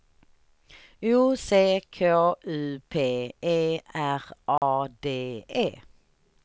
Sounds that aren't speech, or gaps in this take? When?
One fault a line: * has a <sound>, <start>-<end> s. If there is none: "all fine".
* has a dropout, 4.6-4.6 s